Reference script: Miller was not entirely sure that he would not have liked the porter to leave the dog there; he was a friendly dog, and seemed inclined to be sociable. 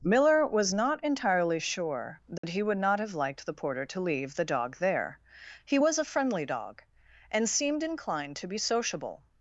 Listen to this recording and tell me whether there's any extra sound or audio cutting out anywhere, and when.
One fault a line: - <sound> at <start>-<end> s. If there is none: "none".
- dropout at 2.4-2.4 s